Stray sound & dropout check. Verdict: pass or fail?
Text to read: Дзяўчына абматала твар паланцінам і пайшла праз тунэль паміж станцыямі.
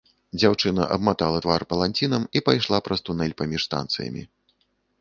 pass